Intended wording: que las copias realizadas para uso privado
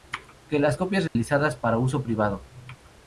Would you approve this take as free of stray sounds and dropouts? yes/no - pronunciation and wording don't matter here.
no